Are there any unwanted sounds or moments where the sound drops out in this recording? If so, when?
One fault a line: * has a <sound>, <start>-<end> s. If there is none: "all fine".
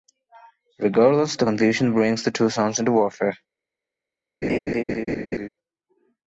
* has a laugh, 4.4-5.5 s